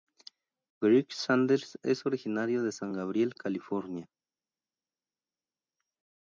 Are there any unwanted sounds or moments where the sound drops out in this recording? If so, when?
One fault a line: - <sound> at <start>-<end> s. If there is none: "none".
none